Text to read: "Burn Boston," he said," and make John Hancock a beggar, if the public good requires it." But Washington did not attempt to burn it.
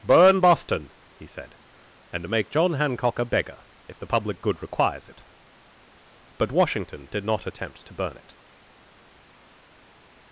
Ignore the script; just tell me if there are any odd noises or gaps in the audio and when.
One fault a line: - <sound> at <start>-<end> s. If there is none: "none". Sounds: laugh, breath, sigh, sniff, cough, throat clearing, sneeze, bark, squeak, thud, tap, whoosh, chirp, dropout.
none